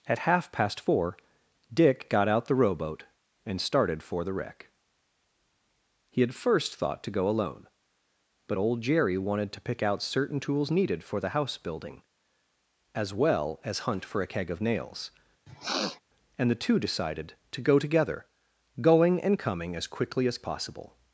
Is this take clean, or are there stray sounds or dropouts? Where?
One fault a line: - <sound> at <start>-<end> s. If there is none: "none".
- sniff at 15.5-16.0 s